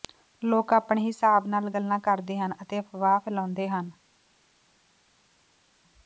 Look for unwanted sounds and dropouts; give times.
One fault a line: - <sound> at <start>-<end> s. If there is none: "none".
none